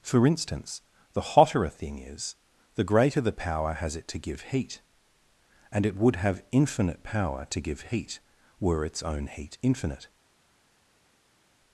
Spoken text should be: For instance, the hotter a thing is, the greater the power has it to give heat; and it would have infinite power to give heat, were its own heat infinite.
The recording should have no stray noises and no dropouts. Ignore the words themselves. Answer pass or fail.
pass